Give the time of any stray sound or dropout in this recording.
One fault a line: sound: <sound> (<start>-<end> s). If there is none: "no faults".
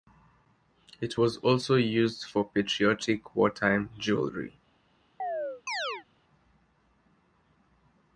sound: chirp (5.2-6.1 s)